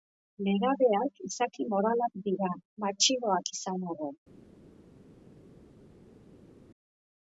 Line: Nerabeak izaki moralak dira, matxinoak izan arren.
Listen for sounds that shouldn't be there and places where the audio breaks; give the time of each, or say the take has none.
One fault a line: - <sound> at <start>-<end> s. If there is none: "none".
none